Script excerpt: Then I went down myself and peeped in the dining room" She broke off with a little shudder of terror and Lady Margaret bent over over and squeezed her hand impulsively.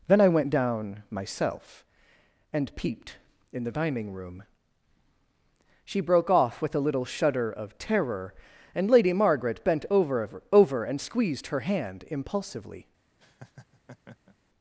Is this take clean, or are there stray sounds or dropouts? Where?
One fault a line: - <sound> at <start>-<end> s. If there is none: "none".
- laugh at 13.2-14.4 s